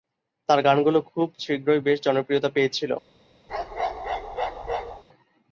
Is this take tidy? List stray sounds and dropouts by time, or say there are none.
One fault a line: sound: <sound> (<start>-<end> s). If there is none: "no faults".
sound: bark (3.5-5.0 s)